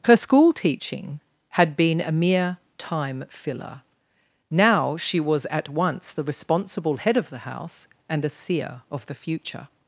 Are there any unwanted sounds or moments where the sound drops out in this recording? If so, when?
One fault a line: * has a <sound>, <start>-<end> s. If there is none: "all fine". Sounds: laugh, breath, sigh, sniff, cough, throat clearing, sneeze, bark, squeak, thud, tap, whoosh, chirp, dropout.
all fine